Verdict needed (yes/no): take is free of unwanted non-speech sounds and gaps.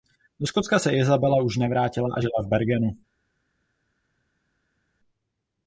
yes